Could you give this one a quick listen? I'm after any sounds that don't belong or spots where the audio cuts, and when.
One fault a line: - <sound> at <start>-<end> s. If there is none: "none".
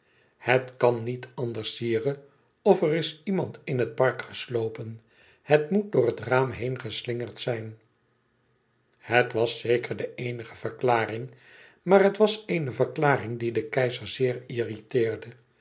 none